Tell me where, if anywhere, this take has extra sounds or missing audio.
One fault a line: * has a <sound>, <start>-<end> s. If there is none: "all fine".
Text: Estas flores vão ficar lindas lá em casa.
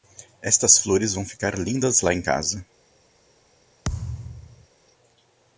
* has a thud, 3.8-4.7 s